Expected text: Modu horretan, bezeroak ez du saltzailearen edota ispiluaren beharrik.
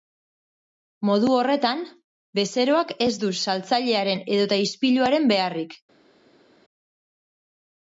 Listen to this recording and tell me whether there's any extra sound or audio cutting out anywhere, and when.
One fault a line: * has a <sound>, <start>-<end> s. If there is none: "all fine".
all fine